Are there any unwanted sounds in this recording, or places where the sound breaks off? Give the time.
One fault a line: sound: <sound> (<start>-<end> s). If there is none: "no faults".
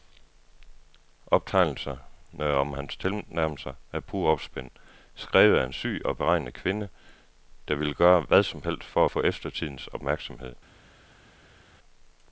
no faults